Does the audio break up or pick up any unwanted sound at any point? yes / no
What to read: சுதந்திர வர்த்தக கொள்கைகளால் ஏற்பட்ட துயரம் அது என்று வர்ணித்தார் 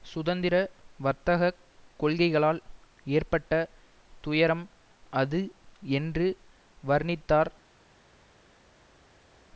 no